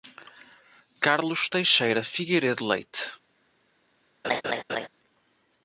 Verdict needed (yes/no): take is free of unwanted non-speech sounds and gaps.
no